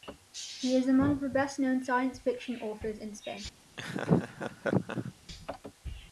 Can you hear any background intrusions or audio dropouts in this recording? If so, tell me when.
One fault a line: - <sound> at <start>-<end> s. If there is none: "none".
- laugh at 3.8-5.1 s